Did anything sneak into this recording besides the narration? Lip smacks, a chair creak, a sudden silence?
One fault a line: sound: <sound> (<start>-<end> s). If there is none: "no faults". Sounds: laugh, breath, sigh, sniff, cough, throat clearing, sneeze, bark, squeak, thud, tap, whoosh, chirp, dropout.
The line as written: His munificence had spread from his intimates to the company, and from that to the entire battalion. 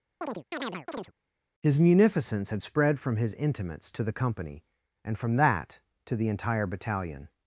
sound: chirp (0.2-1.1 s)